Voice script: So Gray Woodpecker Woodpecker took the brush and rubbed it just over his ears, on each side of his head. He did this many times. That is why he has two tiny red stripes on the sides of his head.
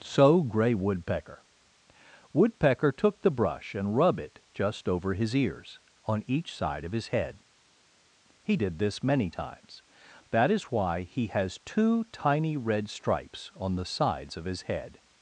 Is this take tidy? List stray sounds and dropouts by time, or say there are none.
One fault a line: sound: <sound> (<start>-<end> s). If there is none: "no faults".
no faults